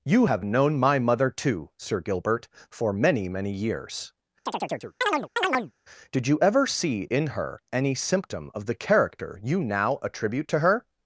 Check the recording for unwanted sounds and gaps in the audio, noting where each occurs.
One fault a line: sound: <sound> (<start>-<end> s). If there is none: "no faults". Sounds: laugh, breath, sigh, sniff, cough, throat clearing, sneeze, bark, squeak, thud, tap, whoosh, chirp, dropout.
sound: chirp (4.5-5.7 s)